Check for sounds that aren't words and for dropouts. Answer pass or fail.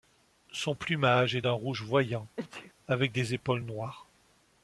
fail